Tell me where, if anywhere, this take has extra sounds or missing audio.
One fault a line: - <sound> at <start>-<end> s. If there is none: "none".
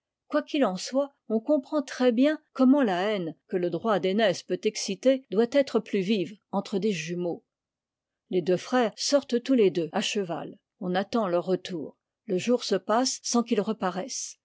none